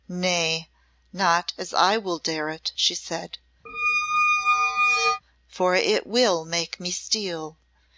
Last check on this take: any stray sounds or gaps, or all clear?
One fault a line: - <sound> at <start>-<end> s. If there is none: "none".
- squeak at 3.7-5.2 s